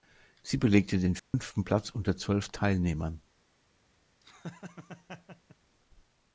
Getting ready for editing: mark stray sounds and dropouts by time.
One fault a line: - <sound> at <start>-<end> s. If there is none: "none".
- dropout at 1.2-1.3 s
- laugh at 4.2-5.6 s